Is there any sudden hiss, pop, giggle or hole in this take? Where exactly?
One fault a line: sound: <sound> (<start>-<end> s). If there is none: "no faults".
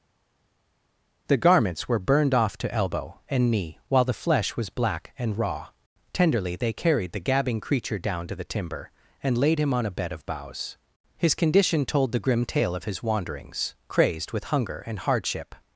no faults